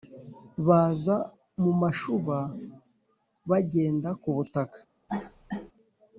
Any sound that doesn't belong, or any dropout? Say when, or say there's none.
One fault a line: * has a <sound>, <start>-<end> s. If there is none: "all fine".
* has a cough, 5.1-5.7 s